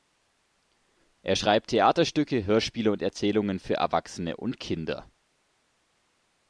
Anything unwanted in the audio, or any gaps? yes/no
no